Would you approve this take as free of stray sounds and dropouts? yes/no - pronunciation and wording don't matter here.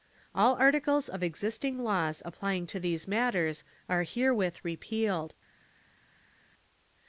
yes